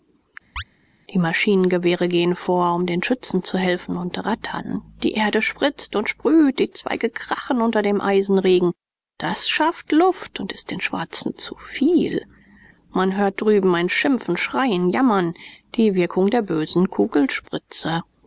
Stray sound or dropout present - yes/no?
yes